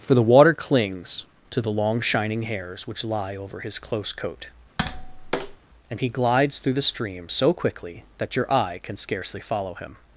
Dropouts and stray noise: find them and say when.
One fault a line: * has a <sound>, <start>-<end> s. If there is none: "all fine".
* has a tap, 4.8-5.6 s